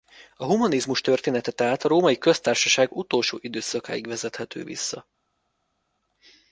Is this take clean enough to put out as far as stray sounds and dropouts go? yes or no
yes